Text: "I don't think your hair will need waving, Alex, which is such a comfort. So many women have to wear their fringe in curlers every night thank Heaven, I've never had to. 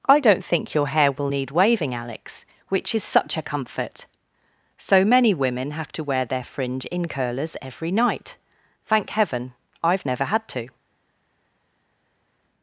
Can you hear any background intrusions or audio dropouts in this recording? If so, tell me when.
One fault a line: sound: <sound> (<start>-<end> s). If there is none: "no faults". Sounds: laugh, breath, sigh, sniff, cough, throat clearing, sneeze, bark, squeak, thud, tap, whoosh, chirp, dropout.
no faults